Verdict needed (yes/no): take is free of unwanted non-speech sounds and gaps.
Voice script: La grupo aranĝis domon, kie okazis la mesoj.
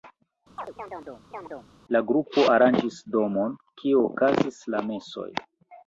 no